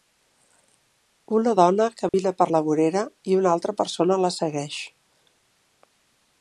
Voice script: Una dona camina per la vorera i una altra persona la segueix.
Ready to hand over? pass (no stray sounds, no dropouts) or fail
fail